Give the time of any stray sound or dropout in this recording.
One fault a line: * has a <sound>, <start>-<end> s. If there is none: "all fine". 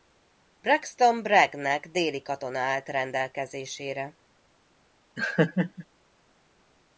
* has a laugh, 5.2-5.9 s